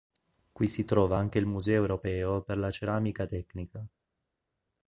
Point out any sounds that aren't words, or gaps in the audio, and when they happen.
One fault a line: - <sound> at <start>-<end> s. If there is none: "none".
none